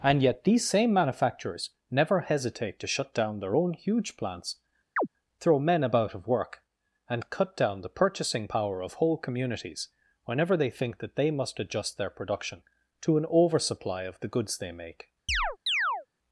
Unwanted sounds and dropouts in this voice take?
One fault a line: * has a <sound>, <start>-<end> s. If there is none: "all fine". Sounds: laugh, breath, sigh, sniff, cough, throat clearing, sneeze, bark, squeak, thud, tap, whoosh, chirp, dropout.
* has a chirp, 5.0-5.1 s
* has a chirp, 15.3-16.1 s